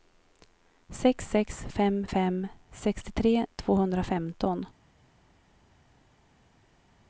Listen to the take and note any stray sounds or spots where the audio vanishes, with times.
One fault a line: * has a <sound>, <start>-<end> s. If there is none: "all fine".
all fine